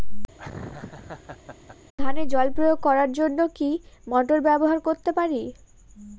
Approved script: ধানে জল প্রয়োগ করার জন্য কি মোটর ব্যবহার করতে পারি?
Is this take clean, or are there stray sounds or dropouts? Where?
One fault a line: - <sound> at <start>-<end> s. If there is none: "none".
- laugh at 0.4-1.8 s